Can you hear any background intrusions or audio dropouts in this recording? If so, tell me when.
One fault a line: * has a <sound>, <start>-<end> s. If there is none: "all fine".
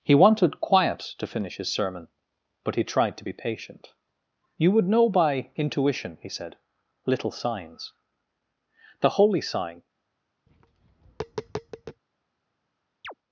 * has a tap, 10.5-12.0 s
* has a chirp, 13.0-13.1 s